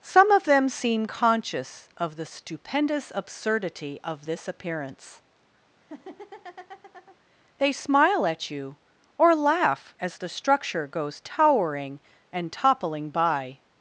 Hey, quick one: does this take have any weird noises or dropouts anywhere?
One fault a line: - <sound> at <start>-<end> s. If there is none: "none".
- laugh at 5.8-7.2 s